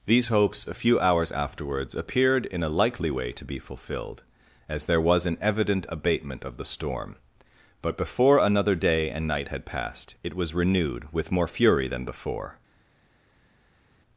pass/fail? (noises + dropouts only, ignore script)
pass